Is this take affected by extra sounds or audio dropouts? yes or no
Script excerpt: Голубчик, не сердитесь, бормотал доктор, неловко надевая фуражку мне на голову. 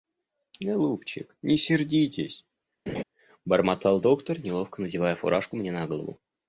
yes